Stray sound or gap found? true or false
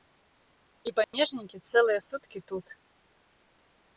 true